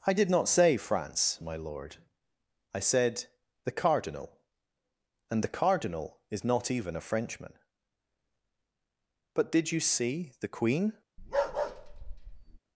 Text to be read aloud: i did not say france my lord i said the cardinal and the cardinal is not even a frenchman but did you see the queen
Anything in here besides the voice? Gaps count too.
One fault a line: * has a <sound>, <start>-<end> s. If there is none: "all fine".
* has a bark, 11.2-12.6 s